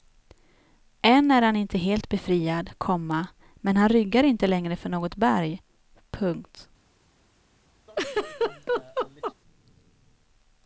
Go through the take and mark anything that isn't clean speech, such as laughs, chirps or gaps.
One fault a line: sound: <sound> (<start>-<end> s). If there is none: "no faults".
sound: laugh (7.9-9.3 s)